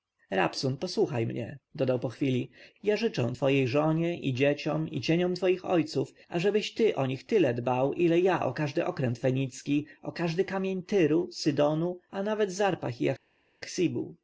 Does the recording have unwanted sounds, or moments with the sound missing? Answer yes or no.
no